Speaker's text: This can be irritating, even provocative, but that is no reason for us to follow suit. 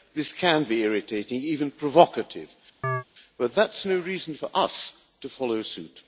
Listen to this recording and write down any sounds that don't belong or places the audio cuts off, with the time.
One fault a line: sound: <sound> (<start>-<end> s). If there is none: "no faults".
sound: chirp (2.8-3.0 s)